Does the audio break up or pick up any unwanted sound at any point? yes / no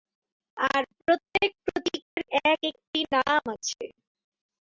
yes